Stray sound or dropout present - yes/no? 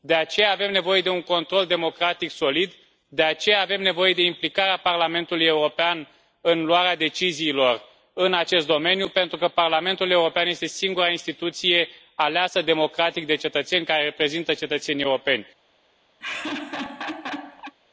yes